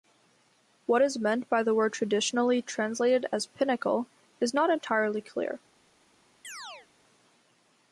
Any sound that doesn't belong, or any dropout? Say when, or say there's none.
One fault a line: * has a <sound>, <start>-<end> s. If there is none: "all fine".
* has a chirp, 6.4-6.9 s